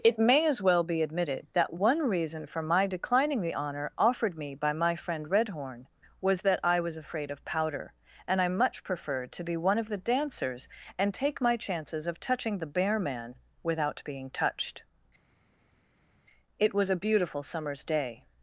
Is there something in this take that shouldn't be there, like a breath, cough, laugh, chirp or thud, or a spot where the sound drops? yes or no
no